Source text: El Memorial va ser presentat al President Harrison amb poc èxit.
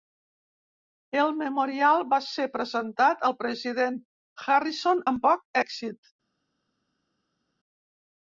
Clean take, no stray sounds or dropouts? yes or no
yes